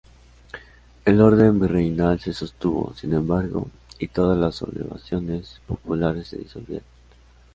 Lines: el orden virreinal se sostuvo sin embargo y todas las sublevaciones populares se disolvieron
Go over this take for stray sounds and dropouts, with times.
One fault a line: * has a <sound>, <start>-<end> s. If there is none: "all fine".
all fine